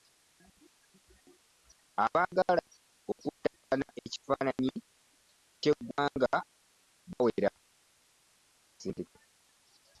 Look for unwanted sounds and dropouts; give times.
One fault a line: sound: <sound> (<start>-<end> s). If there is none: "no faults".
no faults